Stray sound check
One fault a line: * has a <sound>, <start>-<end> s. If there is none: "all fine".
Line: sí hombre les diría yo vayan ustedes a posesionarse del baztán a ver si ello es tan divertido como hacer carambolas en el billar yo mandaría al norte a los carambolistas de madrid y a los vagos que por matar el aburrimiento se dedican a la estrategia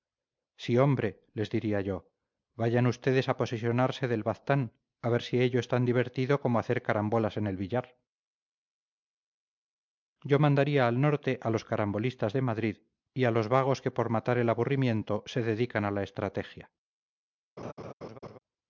* has a laugh, 17.6-18.4 s